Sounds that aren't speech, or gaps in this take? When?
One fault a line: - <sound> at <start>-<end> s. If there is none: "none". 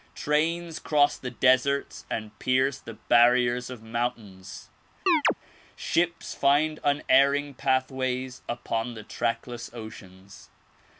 - chirp at 5.1-5.3 s